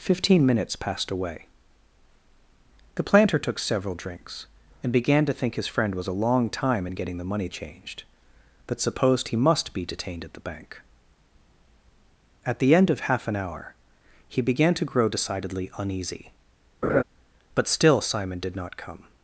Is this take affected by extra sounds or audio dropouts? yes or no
yes